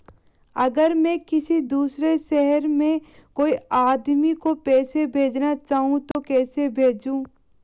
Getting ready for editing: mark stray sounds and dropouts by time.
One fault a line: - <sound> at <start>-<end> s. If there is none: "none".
- dropout at 6.1-6.2 s